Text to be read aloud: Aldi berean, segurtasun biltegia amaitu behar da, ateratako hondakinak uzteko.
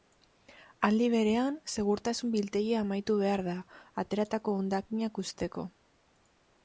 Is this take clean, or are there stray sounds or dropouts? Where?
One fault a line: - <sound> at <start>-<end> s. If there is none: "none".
none